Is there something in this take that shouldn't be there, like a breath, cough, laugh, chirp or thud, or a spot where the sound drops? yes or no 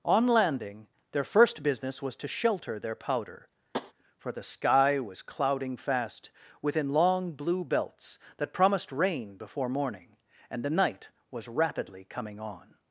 yes